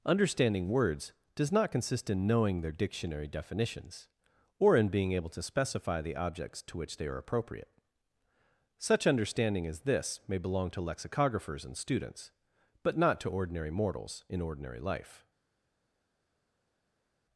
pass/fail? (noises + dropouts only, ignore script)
pass